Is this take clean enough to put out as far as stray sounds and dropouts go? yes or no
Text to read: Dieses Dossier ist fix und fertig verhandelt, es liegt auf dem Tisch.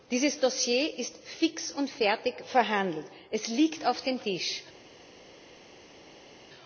yes